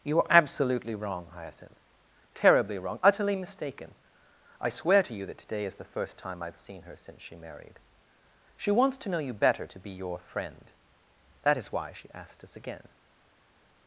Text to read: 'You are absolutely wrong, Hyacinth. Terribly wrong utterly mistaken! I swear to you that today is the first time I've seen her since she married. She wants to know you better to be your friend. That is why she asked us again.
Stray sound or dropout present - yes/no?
no